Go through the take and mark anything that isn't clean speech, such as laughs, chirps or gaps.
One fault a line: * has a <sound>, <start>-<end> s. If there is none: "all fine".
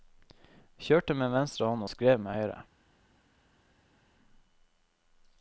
all fine